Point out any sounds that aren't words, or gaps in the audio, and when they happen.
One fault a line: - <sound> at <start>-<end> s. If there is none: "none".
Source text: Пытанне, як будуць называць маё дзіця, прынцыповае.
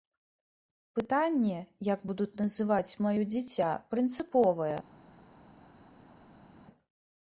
none